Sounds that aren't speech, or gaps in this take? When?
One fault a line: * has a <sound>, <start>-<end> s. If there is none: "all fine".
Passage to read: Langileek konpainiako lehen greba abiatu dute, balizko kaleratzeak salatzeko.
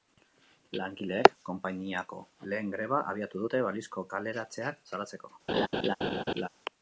* has a laugh, 5.5-6.5 s